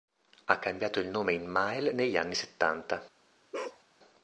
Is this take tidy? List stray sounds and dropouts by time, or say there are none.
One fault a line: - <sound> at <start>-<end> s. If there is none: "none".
- bark at 3.5-3.8 s